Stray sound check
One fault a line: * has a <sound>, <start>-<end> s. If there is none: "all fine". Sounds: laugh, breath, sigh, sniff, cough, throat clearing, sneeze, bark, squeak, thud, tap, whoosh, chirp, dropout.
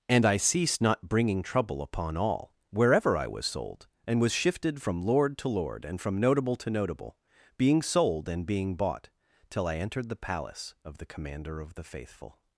all fine